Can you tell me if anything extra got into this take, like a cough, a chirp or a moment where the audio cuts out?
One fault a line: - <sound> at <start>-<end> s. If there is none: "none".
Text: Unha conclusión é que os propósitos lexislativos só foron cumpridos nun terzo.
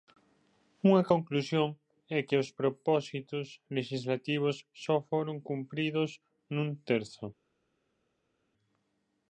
none